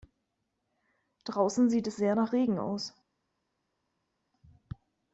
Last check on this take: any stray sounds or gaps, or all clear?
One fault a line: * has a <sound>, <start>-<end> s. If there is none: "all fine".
all fine